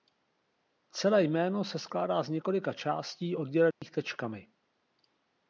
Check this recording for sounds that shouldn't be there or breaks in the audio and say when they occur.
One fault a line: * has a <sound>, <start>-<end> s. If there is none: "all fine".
* has a dropout, 3.7-3.8 s